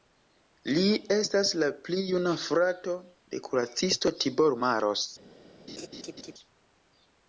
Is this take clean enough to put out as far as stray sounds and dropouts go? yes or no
no